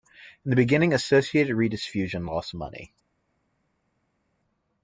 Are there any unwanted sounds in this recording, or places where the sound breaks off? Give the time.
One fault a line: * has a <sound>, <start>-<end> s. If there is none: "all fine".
all fine